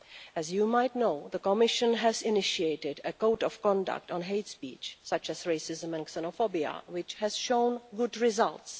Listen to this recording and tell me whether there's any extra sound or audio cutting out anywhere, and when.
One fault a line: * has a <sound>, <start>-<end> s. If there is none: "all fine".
all fine